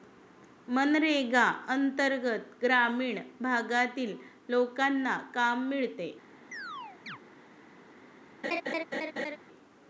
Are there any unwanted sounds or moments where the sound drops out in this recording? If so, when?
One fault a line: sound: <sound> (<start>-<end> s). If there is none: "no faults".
sound: chirp (6.5-7.2 s)
sound: laugh (8.4-9.4 s)